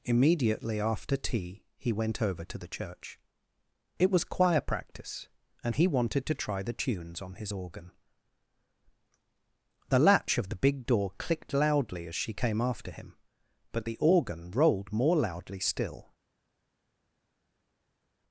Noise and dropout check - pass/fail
pass